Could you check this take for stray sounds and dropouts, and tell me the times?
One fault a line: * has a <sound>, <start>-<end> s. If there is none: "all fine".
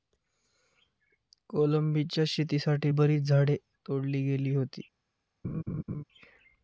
* has a laugh, 5.4-6.0 s